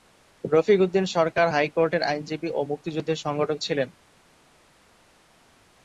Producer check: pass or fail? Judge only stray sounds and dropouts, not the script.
pass